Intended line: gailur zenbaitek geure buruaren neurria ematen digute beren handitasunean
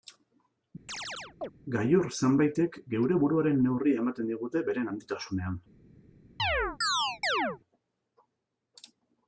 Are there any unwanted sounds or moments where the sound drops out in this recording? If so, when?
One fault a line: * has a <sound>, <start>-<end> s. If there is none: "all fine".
* has a chirp, 0.9-1.5 s
* has a chirp, 6.4-7.6 s